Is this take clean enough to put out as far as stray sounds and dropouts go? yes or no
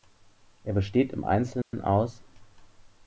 no